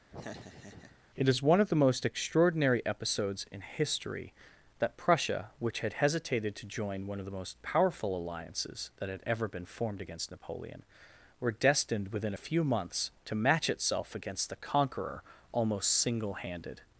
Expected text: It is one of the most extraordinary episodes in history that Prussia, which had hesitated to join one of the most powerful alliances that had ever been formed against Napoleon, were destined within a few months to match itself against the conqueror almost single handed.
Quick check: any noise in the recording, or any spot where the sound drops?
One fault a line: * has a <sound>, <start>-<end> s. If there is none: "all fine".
* has a laugh, 0.1-1.0 s